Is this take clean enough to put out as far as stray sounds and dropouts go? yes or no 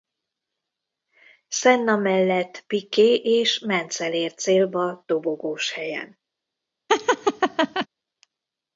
no